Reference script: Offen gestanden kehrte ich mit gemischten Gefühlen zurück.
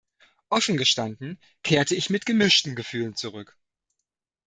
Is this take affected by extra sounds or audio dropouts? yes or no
no